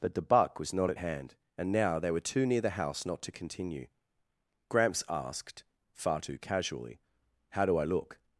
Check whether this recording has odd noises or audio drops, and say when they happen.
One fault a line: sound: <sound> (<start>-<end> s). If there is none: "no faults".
no faults